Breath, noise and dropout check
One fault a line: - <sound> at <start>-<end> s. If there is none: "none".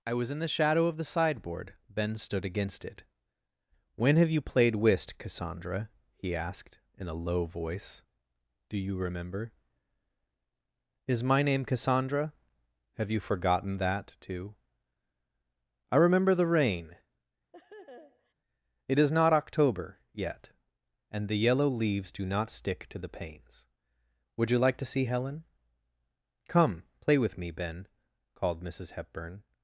- laugh at 17.5-18.3 s